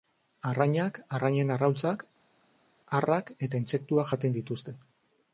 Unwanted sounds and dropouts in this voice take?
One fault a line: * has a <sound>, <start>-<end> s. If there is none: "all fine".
all fine